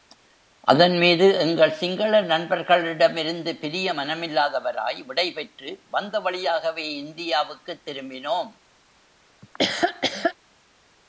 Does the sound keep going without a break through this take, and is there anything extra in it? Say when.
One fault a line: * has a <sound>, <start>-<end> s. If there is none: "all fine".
* has a laugh, 9.4-10.4 s